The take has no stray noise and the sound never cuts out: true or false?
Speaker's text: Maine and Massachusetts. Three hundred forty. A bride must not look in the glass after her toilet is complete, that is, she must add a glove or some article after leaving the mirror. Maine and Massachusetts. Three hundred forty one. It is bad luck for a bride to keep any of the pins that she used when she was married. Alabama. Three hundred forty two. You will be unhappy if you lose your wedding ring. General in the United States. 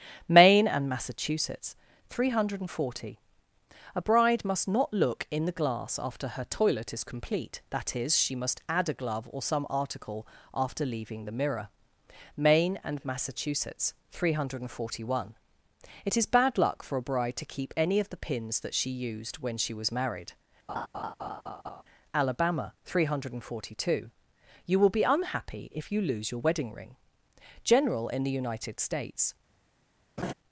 false